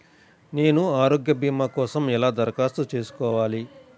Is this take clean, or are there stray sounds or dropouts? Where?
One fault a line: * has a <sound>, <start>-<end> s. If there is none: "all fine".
all fine